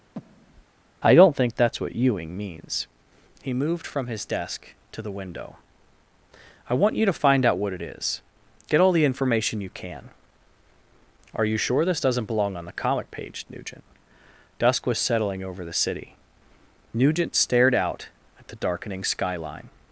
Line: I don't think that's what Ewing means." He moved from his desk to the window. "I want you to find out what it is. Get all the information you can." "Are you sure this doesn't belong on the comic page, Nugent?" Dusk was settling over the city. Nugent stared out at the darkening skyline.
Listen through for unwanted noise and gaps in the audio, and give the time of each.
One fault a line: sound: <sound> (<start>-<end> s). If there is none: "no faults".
sound: breath (0.1-0.7 s)